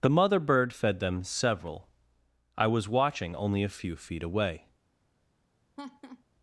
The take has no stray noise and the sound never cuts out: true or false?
false